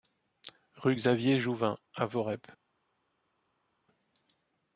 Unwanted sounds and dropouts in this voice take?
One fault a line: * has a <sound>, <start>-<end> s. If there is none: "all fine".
all fine